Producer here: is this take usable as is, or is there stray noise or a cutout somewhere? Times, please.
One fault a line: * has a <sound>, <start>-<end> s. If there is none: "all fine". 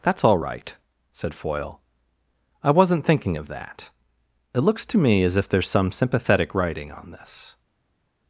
all fine